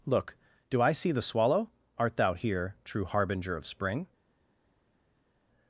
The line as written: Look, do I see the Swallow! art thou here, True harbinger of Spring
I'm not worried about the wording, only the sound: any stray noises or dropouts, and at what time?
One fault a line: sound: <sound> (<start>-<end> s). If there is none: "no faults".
no faults